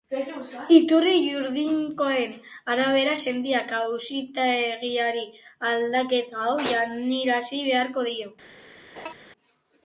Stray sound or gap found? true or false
true